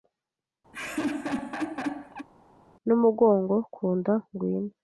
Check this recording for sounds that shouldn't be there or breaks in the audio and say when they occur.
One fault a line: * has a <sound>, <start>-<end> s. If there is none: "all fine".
* has a laugh, 0.7-2.3 s